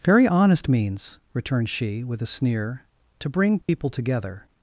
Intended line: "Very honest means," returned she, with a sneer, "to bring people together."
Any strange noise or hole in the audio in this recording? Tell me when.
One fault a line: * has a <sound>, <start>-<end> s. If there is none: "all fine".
* has a dropout, 3.6-3.7 s